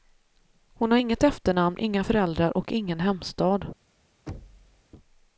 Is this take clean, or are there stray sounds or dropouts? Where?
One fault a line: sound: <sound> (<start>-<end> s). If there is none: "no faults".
sound: thud (4.3-4.8 s)